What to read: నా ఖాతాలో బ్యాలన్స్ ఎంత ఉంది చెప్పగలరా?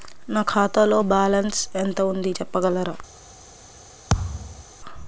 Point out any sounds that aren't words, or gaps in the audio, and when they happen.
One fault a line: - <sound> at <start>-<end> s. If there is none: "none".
- thud at 4.1-4.7 s